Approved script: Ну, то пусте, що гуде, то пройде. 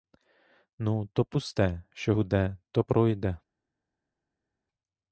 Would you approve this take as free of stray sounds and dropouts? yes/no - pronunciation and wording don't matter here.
yes